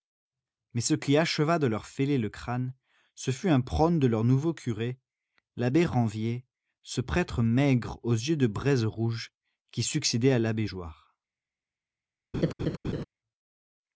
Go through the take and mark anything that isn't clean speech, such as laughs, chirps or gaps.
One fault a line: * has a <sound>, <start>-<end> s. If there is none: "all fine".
* has a laugh, 12.3-13.0 s